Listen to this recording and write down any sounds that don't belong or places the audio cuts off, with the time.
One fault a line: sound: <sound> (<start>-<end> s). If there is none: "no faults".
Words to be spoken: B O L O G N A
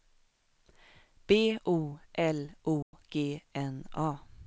sound: dropout (2.8-2.9 s)